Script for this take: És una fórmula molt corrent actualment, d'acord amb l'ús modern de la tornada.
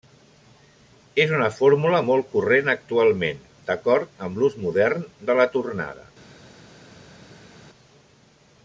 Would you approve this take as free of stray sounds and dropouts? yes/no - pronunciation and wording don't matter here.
yes